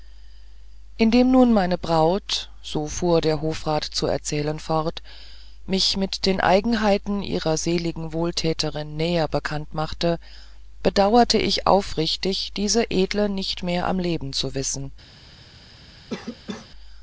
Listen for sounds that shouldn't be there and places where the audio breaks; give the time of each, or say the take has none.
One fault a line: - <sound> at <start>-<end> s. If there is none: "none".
- cough at 16.1-16.7 s